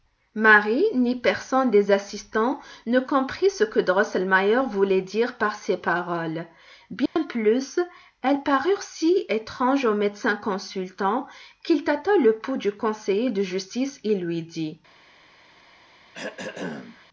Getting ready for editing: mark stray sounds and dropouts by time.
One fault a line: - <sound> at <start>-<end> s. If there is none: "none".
- dropout at 7.1-7.2 s
- throat clearing at 16.1-17.1 s